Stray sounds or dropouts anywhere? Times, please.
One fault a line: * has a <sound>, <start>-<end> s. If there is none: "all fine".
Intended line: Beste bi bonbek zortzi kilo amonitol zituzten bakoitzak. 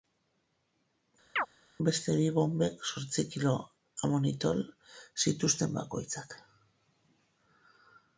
* has a chirp, 1.4-1.5 s